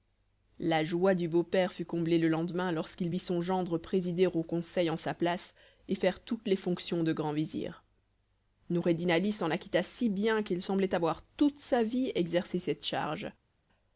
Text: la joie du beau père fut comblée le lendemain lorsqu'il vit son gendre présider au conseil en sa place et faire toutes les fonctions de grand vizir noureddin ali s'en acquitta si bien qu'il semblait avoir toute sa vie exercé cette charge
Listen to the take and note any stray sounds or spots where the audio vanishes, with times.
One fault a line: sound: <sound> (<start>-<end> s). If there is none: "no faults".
no faults